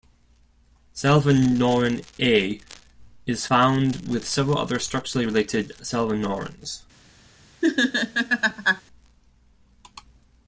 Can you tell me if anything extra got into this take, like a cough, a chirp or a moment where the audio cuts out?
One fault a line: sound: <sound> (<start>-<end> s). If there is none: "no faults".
sound: laugh (7.6-8.8 s)